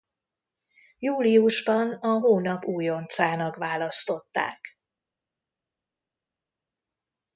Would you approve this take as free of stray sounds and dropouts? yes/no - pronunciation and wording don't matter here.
yes